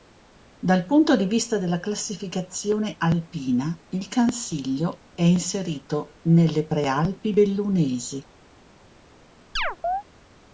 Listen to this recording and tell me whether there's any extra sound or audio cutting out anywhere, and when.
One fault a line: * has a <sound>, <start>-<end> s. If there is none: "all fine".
* has a chirp, 9.6-10.0 s